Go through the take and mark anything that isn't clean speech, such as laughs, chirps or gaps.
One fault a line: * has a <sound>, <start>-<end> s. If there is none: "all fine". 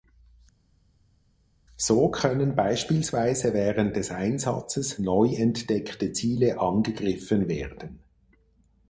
all fine